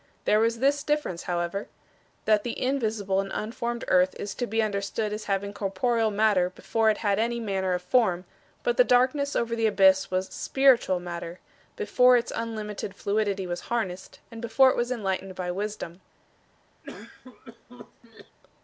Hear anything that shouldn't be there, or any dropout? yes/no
yes